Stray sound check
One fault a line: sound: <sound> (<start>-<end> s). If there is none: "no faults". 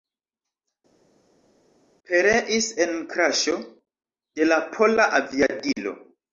no faults